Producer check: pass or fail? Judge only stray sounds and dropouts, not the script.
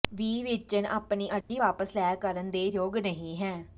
fail